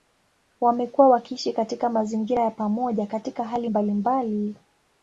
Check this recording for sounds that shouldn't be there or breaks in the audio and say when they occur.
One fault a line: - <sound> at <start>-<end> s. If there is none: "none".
none